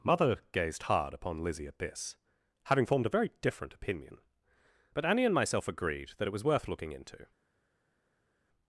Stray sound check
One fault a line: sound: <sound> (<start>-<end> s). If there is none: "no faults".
no faults